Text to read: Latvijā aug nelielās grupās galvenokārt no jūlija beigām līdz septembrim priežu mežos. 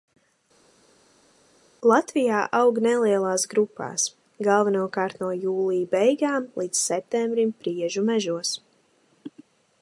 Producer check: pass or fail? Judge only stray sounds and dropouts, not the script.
pass